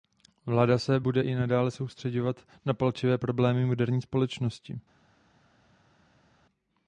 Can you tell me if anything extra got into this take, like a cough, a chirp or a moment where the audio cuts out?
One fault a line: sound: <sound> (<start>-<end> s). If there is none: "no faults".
no faults